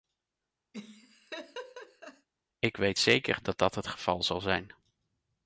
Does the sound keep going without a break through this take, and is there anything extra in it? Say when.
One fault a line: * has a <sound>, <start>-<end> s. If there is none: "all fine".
* has a laugh, 0.7-2.3 s